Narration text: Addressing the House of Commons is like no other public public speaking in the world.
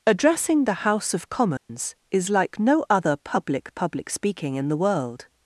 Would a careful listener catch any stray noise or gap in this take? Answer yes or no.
yes